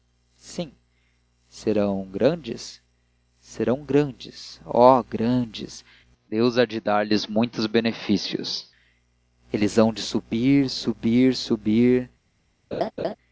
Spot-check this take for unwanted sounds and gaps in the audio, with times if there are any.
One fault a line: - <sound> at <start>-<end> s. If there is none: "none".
- laugh at 12.7-13.2 s